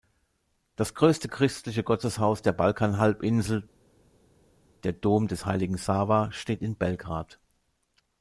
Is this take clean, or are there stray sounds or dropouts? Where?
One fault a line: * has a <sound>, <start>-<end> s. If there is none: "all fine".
all fine